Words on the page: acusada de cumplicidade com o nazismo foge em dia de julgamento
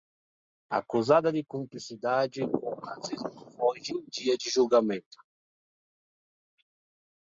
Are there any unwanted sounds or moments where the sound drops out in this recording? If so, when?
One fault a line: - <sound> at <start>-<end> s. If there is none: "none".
none